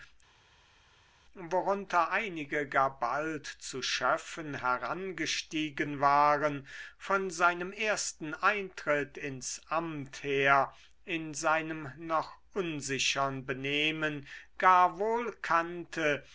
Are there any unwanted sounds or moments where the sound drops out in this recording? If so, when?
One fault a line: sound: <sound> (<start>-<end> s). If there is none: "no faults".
no faults